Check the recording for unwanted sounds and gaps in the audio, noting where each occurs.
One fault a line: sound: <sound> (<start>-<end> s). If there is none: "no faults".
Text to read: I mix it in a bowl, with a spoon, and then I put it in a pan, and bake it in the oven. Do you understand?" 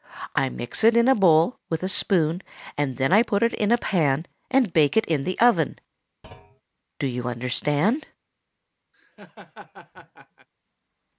sound: thud (6.2-6.6 s)
sound: laugh (8.9-10.5 s)